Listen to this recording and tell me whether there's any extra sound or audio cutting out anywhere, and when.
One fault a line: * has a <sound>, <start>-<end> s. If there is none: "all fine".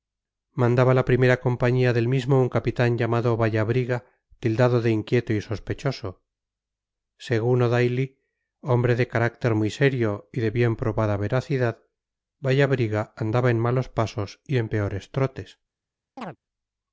* has a chirp, 16.2-16.4 s